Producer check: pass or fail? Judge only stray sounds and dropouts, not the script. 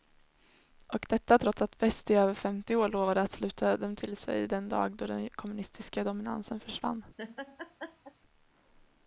fail